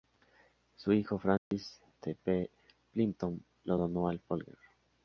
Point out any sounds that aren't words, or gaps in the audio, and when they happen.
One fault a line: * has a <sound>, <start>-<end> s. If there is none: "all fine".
* has a dropout, 1.4-1.5 s